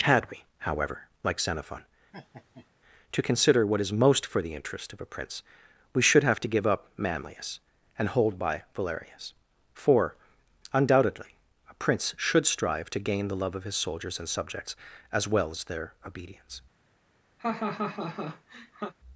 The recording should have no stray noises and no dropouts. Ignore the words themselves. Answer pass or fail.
fail